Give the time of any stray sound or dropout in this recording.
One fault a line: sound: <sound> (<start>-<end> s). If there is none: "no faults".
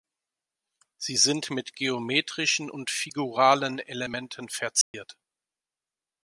sound: dropout (4.8-4.9 s)